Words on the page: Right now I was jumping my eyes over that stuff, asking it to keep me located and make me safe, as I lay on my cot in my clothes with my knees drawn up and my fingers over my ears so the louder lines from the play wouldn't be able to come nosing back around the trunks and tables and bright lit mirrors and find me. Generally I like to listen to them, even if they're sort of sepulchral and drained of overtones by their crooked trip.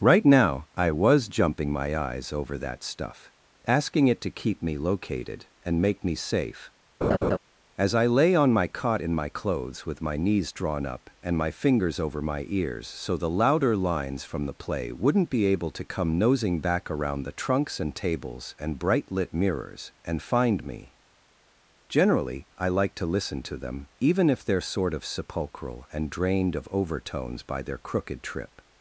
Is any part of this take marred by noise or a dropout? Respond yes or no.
yes